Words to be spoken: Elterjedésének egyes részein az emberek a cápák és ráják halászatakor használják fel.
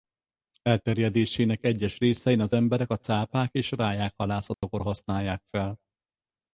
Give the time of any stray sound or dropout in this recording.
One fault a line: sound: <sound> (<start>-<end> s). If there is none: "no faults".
sound: dropout (4.5-4.6 s)